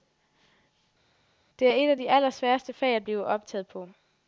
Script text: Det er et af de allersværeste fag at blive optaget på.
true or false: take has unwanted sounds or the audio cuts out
false